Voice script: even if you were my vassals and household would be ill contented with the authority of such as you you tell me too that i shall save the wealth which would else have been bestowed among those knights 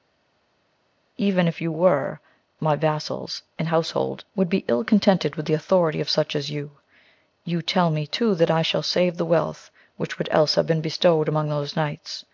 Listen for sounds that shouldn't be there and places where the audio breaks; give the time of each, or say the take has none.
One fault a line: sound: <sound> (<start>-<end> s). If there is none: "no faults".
no faults